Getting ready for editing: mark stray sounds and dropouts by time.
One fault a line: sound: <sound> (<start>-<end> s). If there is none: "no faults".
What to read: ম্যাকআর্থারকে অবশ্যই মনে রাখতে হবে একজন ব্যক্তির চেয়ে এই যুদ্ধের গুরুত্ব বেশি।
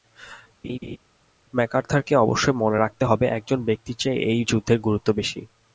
sound: laugh (0.6-1.0 s)